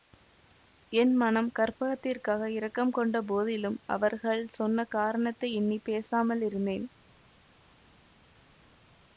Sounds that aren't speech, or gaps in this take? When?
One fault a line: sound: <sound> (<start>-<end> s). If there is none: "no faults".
no faults